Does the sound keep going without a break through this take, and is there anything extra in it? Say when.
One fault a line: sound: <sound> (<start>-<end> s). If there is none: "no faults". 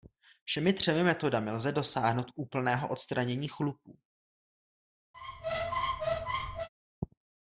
sound: squeak (5.1-6.7 s)